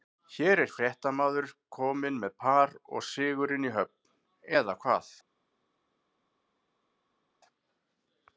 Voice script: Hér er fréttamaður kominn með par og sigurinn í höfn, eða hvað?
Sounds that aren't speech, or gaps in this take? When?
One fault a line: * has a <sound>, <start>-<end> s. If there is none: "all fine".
all fine